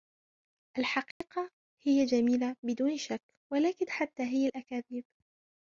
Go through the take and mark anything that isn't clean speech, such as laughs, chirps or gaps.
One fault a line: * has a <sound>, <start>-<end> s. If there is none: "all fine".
* has a dropout, 1.1-1.2 s